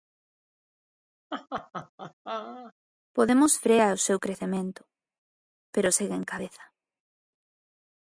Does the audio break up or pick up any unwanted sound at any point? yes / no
yes